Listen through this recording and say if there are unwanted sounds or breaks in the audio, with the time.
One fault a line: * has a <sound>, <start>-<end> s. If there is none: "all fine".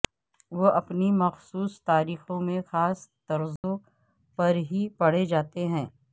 * has a dropout, 3.6-3.6 s